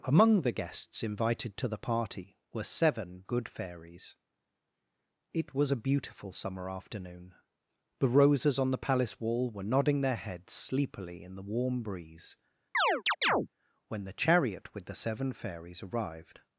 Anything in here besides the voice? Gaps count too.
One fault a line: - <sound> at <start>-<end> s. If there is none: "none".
- chirp at 12.7-13.5 s